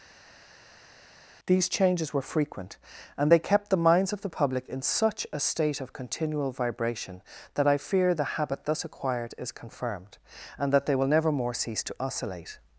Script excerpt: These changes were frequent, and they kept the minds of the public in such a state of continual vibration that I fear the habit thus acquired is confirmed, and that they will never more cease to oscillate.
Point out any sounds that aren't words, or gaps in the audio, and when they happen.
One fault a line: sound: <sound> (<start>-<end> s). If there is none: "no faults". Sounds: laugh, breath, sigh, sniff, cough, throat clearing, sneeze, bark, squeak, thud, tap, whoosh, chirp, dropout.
no faults